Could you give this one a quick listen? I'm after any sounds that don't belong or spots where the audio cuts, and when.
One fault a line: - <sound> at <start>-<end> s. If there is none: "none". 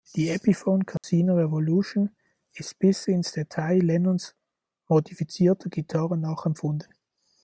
- dropout at 1.0-1.0 s